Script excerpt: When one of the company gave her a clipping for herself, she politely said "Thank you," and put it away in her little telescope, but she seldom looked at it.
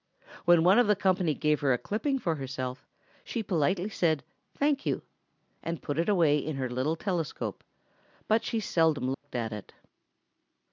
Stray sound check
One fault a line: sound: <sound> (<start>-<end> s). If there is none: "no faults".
sound: dropout (9.1-9.2 s)